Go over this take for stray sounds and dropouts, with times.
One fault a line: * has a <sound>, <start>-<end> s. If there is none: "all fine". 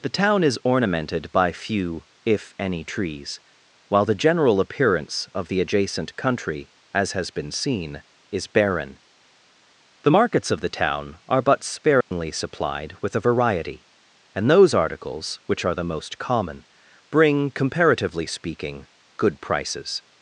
* has a dropout, 12.0-12.1 s